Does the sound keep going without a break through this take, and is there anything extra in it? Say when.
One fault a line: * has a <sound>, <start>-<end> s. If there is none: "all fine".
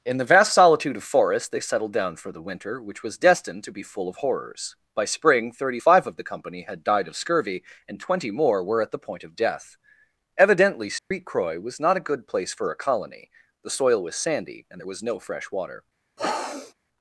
* has a dropout, 11.0-11.1 s
* has a sniff, 16.2-16.7 s